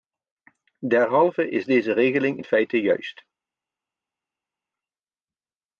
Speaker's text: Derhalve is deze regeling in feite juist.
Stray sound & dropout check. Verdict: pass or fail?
pass